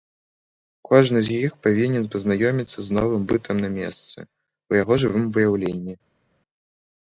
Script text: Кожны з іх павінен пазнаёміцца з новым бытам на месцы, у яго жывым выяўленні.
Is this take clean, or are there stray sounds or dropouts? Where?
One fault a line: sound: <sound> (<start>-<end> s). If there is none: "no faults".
no faults